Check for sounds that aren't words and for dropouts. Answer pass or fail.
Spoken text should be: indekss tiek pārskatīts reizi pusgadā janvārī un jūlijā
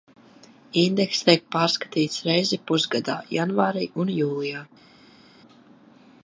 pass